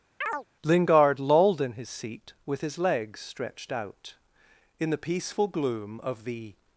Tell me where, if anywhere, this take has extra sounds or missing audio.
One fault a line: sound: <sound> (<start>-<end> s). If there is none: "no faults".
sound: chirp (0.2-0.5 s)